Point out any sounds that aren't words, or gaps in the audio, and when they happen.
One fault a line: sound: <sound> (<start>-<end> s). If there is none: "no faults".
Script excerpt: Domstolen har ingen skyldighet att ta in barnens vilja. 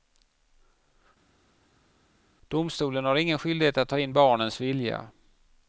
no faults